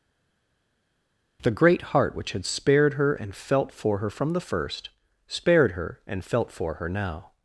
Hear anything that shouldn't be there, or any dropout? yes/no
no